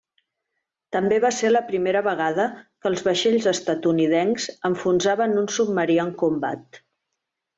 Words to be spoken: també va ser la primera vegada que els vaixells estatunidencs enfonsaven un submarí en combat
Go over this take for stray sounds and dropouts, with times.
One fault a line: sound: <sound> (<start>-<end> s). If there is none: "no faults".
no faults